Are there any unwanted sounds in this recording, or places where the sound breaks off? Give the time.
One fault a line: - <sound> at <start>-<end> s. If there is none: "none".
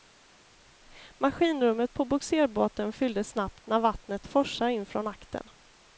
none